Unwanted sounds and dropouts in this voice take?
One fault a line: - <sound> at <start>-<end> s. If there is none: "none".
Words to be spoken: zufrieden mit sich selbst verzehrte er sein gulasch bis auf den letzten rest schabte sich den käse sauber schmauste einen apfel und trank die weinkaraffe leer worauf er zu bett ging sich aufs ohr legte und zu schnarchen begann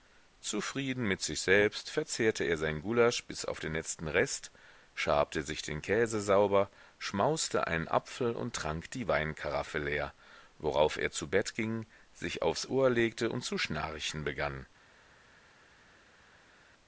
none